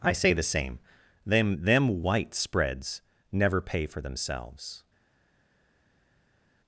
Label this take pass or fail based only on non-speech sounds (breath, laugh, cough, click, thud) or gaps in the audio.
pass